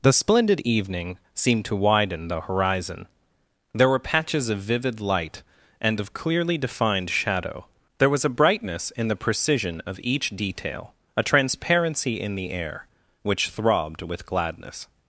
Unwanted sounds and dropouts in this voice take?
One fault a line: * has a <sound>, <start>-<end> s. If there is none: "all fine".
all fine